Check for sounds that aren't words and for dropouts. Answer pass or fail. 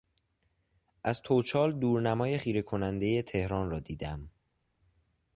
pass